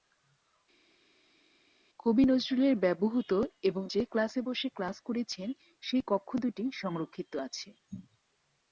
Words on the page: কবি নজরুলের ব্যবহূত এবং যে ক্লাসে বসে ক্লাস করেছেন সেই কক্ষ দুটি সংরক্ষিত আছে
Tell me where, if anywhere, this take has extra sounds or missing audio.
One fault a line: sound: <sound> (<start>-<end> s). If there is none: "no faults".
no faults